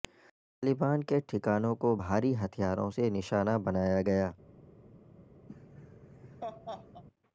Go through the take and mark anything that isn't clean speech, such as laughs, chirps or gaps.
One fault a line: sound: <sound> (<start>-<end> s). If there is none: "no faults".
sound: laugh (5.5-7.0 s)